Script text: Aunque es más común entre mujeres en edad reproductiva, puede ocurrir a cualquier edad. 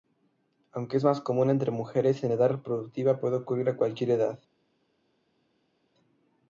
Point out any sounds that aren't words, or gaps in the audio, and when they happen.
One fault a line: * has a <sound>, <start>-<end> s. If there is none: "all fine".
all fine